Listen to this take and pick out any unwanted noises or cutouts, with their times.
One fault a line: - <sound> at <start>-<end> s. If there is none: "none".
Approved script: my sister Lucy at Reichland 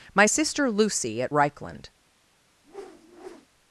- whoosh at 2.6-3.5 s